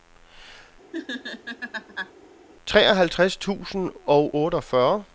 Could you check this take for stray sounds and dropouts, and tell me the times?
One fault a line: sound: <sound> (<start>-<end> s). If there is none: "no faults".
sound: laugh (0.9-2.1 s)